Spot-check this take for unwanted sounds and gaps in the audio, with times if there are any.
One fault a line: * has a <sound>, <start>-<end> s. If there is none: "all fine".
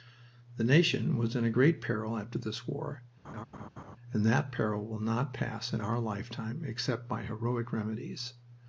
* has a laugh, 3.2-4.0 s